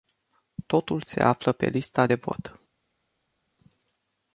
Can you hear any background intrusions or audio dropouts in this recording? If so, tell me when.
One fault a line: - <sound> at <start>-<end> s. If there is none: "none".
none